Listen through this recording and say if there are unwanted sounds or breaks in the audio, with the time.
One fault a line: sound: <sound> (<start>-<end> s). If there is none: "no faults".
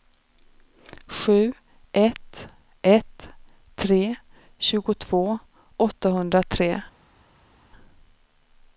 no faults